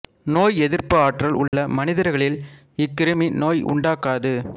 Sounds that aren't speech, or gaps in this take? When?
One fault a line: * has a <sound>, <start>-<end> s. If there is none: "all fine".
* has a dropout, 1.5-1.5 s